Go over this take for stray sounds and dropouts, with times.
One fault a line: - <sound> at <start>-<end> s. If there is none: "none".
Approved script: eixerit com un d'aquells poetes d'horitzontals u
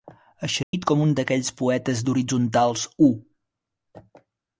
- dropout at 0.6-0.7 s